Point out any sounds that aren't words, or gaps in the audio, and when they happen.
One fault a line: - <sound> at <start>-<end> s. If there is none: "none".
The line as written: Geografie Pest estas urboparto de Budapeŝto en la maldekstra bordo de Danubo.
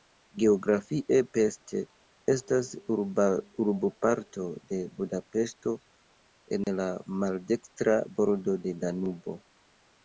- dropout at 6.6-6.7 s